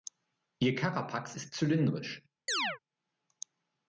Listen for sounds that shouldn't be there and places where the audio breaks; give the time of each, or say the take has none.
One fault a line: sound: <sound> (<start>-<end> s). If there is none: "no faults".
sound: chirp (2.5-2.8 s)